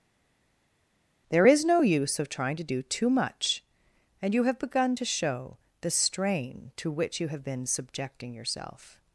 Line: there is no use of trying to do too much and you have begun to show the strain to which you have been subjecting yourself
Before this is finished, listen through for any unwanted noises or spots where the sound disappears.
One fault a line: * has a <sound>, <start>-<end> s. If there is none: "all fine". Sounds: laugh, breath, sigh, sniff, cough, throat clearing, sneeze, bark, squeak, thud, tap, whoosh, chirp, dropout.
all fine